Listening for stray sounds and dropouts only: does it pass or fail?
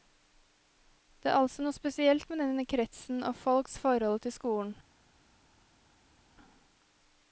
pass